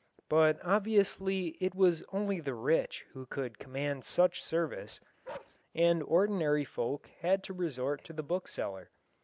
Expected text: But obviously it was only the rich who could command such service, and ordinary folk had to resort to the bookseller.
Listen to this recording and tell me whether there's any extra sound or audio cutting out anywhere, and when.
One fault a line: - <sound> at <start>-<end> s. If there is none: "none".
- bark at 5.2-5.6 s